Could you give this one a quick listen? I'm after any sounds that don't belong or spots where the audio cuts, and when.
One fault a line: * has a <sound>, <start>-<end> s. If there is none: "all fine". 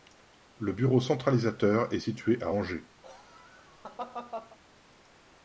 * has a laugh, 3.0-4.6 s